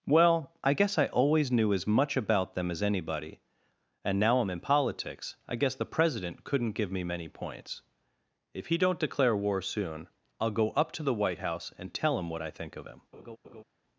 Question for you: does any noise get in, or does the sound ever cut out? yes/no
yes